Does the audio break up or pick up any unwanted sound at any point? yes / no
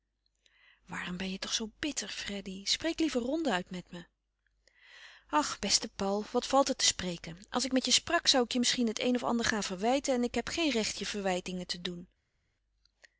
no